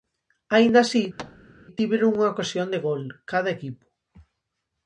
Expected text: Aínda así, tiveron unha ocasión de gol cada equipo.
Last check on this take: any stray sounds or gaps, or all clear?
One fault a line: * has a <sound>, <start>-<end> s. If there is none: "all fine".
* has a thud, 1.2-1.5 s